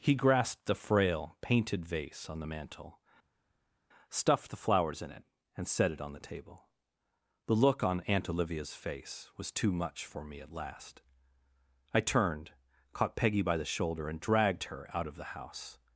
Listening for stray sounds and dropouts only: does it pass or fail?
pass